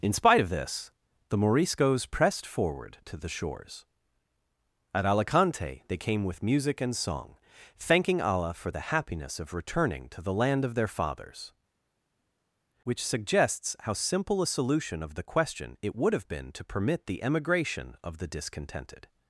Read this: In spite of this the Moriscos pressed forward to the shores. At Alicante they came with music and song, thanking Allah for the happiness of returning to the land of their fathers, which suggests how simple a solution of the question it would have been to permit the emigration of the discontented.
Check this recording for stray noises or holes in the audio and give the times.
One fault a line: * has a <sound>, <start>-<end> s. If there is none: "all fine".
all fine